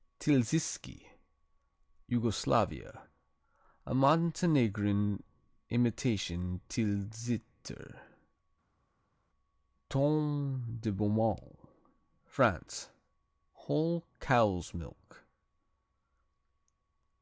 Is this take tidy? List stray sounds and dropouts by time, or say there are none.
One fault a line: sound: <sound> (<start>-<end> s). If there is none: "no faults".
no faults